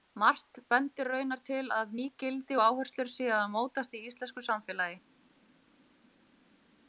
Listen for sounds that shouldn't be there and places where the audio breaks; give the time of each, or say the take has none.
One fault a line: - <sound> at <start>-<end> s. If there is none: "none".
none